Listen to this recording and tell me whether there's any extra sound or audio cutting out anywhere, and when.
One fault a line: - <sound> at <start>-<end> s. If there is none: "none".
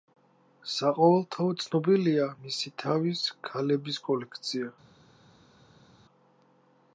none